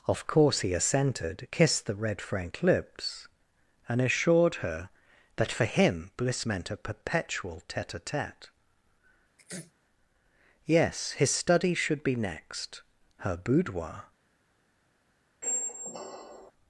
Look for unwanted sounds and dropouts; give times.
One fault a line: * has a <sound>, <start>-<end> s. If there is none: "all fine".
* has a sneeze, 9.4-9.7 s
* has a squeak, 15.4-16.5 s